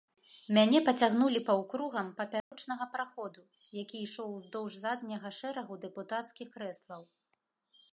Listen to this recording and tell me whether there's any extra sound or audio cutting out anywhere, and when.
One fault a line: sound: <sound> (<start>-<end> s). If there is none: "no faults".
sound: dropout (2.4-2.5 s)